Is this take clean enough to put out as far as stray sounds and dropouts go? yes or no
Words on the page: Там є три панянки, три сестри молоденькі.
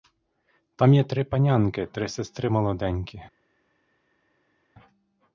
yes